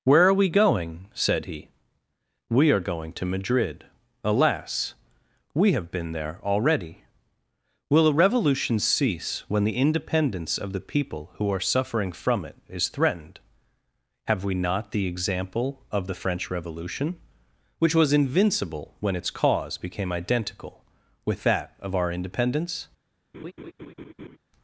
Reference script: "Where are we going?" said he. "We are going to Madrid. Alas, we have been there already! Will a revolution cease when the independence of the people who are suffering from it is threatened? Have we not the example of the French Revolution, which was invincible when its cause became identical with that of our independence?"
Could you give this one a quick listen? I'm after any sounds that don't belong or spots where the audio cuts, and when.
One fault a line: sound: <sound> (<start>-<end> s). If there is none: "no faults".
sound: laugh (23.3-24.4 s)